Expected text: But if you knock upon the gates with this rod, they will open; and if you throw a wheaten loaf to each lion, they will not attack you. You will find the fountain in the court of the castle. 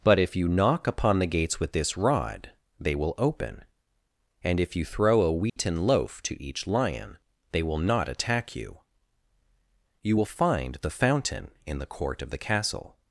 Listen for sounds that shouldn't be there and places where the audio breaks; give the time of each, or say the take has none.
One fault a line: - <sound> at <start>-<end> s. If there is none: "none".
- dropout at 5.5-5.6 s